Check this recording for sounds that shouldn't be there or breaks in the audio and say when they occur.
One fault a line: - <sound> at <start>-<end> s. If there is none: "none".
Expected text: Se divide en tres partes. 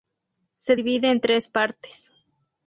none